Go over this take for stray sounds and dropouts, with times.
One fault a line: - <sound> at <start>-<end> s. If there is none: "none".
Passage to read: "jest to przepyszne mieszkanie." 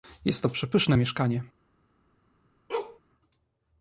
- bark at 2.7-3.0 s